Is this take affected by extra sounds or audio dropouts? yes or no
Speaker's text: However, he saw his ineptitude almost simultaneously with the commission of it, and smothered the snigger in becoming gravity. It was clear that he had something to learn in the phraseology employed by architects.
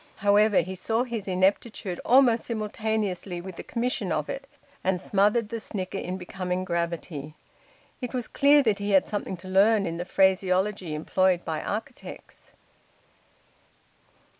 no